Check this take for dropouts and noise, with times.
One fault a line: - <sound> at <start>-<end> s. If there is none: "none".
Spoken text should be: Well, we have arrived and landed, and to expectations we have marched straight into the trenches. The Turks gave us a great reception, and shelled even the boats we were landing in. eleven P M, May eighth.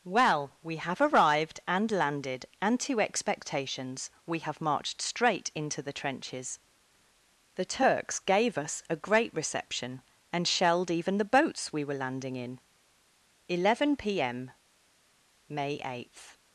none